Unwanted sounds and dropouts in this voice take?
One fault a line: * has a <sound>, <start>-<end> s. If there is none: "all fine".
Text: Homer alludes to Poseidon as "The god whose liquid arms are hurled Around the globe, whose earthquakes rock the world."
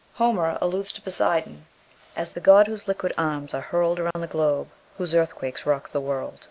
* has a dropout, 4.1-4.2 s